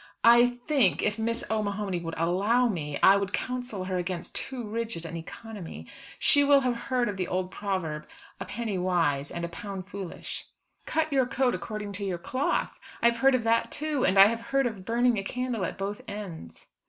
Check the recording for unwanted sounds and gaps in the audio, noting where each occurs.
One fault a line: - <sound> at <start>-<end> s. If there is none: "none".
none